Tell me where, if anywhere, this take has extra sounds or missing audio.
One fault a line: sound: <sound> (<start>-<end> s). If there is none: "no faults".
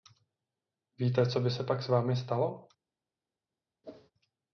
sound: whoosh (3.8-4.1 s)